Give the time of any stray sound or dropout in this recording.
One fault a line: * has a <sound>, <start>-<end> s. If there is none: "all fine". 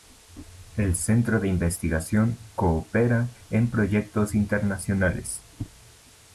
all fine